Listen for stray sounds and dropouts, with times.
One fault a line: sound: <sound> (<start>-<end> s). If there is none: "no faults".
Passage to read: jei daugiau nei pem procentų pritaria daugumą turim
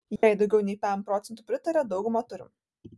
sound: dropout (0.2-0.2 s)